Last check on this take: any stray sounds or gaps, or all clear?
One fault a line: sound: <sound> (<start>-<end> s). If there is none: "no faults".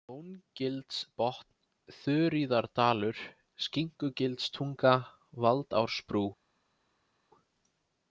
no faults